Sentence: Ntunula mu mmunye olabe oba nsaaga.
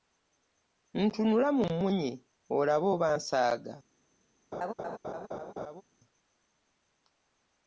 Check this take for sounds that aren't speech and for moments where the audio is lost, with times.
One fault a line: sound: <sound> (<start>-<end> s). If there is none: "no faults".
sound: laugh (4.5-5.8 s)